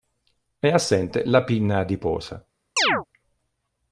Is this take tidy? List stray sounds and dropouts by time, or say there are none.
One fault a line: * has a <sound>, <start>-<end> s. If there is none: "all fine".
* has a chirp, 2.8-3.1 s